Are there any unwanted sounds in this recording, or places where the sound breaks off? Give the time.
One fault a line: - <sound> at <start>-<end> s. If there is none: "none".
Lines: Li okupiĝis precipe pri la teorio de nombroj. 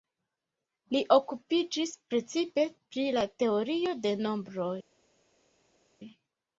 none